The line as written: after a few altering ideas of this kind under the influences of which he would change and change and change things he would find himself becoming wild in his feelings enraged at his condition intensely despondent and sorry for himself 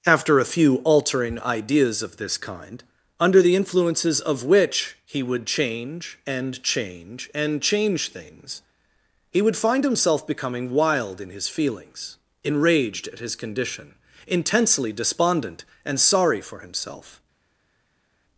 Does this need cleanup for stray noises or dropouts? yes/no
no